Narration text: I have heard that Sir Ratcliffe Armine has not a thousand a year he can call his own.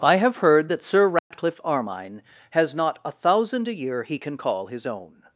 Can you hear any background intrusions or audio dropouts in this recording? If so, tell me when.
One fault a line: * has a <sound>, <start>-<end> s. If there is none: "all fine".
* has a dropout, 1.2-1.3 s